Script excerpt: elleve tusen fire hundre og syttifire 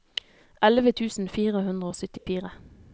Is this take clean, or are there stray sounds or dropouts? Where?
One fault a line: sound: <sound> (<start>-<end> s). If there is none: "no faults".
sound: dropout (2.2-2.3 s)